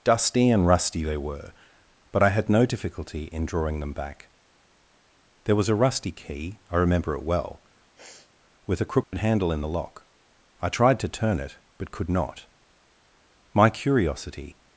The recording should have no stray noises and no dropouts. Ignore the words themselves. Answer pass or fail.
fail